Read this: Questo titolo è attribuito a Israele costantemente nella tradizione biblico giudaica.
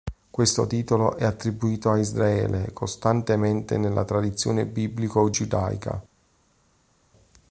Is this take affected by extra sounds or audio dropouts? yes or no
no